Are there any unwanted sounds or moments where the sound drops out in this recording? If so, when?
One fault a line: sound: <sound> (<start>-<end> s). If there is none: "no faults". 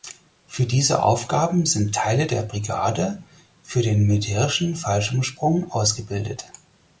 no faults